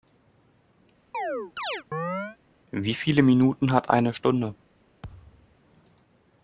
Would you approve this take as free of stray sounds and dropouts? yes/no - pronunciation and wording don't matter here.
no